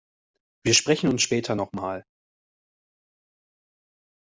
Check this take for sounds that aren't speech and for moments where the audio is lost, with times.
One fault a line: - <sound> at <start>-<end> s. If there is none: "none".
none